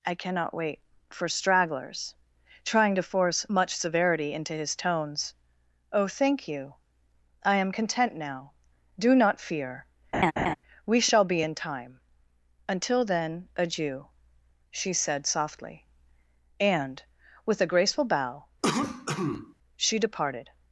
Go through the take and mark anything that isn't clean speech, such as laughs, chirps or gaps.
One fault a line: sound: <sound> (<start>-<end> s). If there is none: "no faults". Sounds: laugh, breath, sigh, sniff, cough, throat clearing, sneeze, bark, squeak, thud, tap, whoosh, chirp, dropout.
sound: laugh (10.1-10.6 s)
sound: cough (18.6-19.5 s)